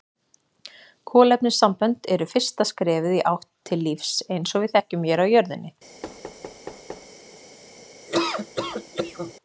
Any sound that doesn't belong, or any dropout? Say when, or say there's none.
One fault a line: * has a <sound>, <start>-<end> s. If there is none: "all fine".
* has a thud, 6.0-7.1 s
* has a laugh, 8.1-9.3 s